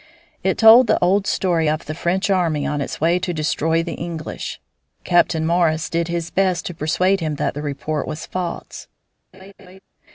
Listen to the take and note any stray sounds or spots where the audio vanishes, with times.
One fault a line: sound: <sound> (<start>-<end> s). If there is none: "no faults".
sound: laugh (9.3-9.8 s)